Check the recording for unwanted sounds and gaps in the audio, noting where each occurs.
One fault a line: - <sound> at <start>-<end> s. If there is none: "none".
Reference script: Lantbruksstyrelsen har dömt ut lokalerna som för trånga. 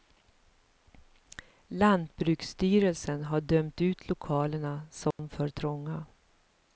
- dropout at 5.1-5.2 s